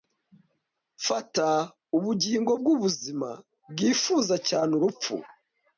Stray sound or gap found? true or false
false